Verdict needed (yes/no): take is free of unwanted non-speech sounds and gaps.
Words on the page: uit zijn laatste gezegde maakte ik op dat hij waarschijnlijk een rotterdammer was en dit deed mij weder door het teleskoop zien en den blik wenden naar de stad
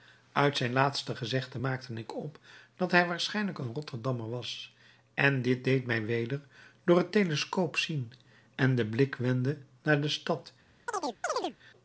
no